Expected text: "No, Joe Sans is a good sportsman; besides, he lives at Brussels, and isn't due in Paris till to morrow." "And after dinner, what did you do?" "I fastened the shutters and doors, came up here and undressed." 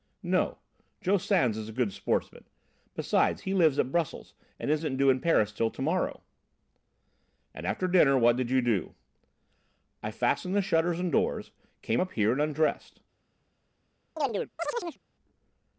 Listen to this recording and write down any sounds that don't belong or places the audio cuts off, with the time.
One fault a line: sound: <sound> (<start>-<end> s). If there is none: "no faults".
sound: chirp (14.2-15.0 s)